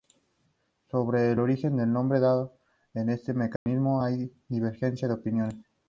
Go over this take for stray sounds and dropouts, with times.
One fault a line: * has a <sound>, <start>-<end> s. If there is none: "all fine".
* has a dropout, 3.6-3.7 s